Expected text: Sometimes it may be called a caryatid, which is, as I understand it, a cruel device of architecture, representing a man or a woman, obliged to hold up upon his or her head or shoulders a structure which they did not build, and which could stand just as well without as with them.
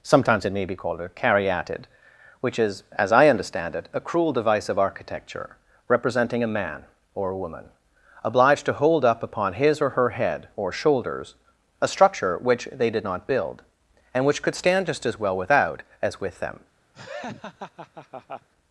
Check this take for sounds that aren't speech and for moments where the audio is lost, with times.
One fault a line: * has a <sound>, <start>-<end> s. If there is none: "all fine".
* has a laugh, 16.9-18.5 s